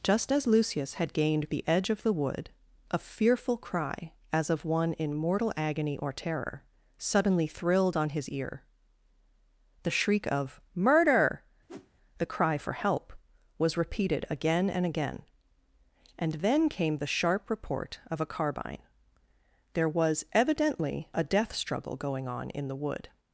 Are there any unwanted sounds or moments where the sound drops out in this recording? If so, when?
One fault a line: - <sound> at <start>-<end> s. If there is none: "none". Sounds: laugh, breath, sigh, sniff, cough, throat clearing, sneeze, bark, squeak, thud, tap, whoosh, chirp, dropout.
- whoosh at 11.7-11.9 s